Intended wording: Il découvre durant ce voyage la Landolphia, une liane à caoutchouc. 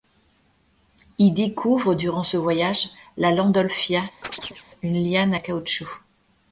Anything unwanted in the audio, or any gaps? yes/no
yes